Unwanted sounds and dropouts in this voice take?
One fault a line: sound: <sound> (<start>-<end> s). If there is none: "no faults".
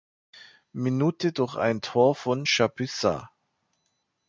no faults